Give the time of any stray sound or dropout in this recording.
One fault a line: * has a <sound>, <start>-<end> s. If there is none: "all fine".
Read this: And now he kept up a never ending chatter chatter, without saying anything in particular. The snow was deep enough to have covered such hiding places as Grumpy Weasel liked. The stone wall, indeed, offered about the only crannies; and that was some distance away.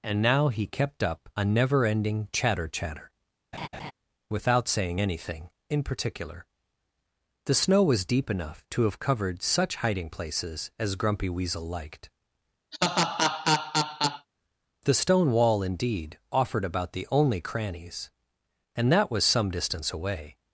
* has a laugh, 3.5-3.9 s
* has a laugh, 12.7-14.3 s